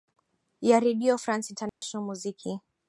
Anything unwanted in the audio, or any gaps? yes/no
yes